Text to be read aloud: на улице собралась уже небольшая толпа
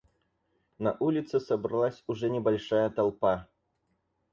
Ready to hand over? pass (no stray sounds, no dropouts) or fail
pass